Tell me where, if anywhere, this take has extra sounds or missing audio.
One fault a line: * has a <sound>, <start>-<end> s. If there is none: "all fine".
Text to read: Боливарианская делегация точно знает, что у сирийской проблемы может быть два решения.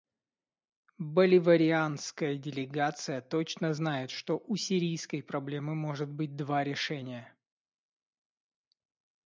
all fine